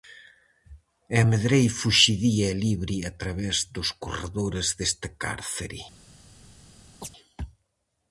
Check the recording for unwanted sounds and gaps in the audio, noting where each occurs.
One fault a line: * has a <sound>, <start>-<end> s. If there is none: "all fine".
* has a chirp, 7.0-7.1 s